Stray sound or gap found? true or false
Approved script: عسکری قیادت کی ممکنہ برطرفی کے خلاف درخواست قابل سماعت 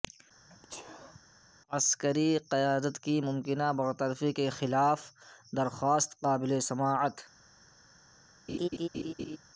true